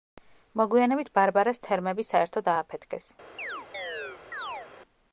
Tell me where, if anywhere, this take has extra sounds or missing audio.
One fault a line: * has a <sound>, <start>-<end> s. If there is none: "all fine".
* has a chirp, 3.4-4.7 s